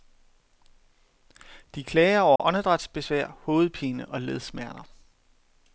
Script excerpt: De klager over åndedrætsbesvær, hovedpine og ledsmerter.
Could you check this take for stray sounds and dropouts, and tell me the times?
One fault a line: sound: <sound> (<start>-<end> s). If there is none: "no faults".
sound: dropout (2.4-2.4 s)